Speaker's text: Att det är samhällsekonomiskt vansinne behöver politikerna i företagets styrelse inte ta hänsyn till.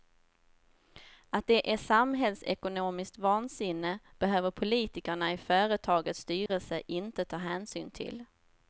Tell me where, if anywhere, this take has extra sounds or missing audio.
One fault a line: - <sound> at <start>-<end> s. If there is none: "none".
- dropout at 6.5-6.5 s